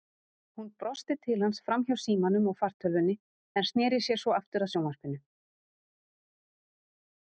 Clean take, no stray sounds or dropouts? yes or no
yes